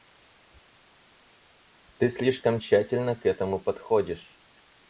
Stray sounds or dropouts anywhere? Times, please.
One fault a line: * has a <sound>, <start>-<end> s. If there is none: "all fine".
all fine